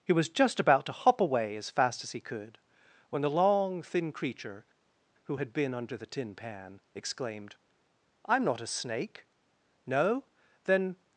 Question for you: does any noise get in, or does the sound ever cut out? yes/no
no